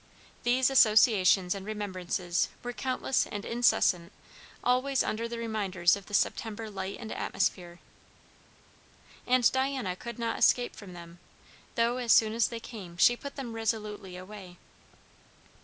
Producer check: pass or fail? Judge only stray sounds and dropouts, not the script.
pass